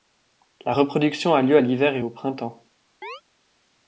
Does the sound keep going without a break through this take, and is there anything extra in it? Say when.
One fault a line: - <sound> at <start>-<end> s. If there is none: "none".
- chirp at 3.0-3.2 s